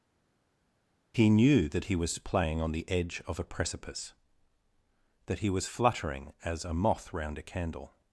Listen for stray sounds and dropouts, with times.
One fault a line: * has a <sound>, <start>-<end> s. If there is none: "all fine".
all fine